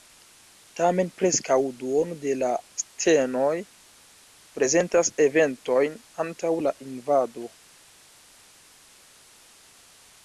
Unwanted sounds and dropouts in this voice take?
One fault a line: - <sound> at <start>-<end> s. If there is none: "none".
none